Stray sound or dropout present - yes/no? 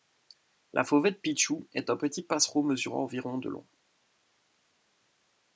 no